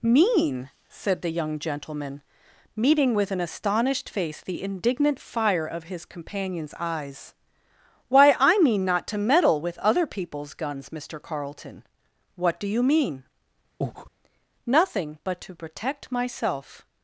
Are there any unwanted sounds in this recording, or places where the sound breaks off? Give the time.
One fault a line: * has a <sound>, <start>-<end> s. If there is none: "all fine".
* has a breath, 13.8-14.1 s